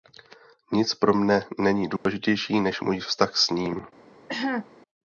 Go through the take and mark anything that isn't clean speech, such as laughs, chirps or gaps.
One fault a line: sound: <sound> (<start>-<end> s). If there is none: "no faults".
sound: dropout (2.0-2.1 s)
sound: cough (4.3-4.7 s)